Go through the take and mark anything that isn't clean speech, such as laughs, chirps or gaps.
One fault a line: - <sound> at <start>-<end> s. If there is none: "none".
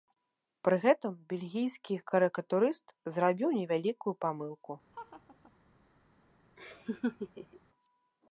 - laugh at 4.9-5.5 s
- laugh at 6.6-7.6 s